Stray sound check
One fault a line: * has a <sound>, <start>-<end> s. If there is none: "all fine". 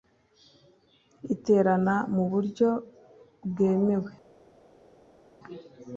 all fine